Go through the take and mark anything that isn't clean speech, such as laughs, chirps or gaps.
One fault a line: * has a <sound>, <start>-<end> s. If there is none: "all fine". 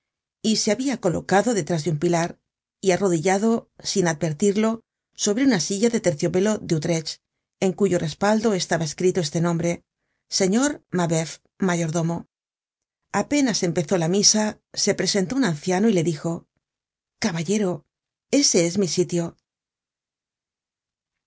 all fine